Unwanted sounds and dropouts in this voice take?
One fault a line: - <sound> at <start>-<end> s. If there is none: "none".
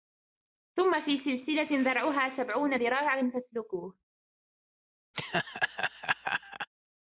- laugh at 5.1-6.7 s